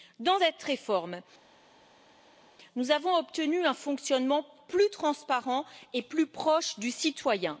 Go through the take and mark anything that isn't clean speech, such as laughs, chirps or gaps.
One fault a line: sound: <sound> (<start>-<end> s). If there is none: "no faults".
no faults